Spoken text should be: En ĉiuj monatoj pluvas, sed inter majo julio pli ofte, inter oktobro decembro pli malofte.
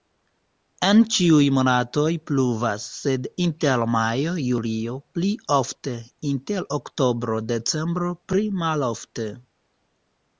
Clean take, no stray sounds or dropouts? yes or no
yes